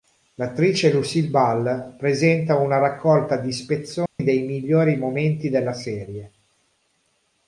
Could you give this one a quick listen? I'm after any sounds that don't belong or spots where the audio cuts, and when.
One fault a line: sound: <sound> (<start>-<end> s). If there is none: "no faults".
sound: dropout (4.1-4.2 s)